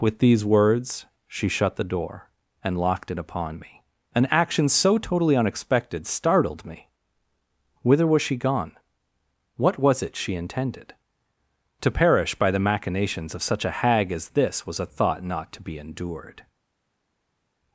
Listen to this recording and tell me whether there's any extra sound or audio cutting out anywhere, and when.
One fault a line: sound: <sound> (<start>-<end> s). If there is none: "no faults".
no faults